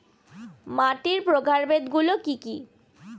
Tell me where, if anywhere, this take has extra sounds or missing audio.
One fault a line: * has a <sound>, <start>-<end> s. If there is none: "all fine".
all fine